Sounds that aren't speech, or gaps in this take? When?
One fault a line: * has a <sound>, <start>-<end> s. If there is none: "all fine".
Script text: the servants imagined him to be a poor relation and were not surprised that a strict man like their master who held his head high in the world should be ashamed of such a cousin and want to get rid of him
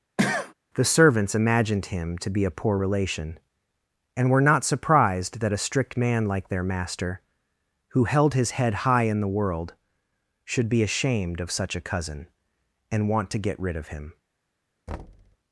* has a cough, 0.2-0.5 s
* has a thud, 14.9-15.4 s